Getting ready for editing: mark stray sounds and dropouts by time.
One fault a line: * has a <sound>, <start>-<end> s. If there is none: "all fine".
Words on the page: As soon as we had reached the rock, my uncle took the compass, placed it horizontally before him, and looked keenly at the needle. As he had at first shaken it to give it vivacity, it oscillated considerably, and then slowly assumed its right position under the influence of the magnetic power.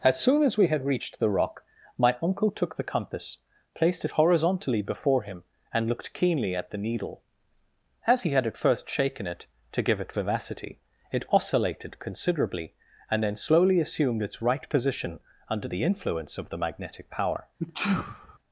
* has a sneeze, 17.6-18.4 s